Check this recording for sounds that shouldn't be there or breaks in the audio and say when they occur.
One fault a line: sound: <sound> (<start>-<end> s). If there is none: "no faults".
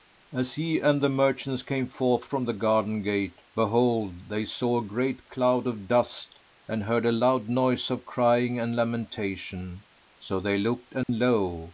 sound: dropout (11.0-11.1 s)